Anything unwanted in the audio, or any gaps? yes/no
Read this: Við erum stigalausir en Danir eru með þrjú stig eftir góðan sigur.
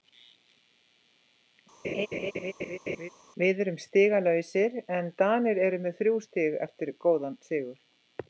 yes